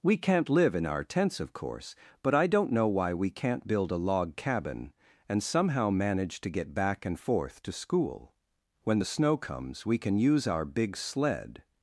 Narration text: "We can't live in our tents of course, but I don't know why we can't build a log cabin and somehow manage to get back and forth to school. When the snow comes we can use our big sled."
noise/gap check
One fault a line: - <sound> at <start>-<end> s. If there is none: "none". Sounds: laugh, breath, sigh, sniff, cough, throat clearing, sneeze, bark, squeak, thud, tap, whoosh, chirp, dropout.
none